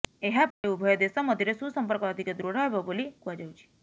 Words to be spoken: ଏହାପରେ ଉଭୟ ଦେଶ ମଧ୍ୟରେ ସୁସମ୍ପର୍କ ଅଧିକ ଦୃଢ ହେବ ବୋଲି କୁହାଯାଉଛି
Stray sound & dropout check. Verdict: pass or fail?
fail